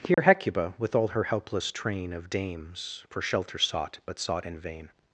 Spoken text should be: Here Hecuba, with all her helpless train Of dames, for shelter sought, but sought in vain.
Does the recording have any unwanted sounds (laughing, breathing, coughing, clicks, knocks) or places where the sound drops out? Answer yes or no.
yes